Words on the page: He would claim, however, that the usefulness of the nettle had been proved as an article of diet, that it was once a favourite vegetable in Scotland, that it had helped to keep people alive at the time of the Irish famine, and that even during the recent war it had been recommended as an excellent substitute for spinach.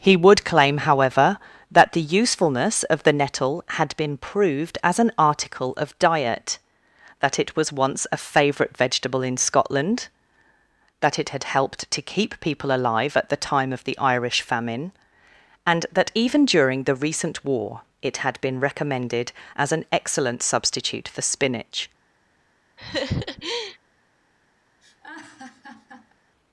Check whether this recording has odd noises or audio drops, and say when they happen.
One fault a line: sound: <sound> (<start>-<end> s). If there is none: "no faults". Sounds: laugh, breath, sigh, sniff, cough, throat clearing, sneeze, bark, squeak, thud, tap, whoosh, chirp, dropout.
sound: laugh (22.8-23.8 s)
sound: laugh (24.8-26.1 s)